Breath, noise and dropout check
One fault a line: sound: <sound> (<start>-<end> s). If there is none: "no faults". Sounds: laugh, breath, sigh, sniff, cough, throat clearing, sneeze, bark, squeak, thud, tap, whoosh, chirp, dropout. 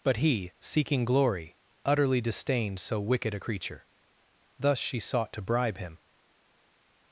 no faults